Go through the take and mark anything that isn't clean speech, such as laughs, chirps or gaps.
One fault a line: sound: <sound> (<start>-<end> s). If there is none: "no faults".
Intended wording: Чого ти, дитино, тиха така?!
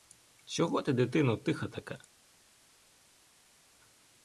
no faults